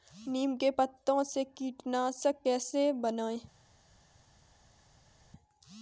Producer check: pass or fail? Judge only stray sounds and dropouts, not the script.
pass